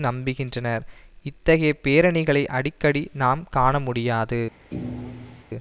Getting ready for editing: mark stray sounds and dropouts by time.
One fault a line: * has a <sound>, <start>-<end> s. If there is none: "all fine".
* has a thud, 4.7-5.4 s